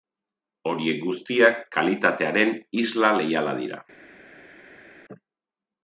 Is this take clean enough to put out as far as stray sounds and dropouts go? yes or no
yes